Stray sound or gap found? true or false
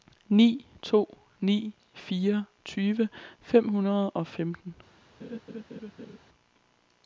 true